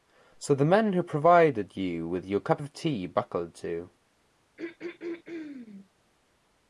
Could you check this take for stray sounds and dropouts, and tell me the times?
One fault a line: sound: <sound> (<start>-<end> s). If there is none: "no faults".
sound: throat clearing (4.6-5.9 s)